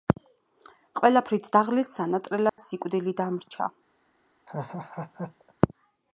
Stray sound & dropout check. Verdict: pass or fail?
fail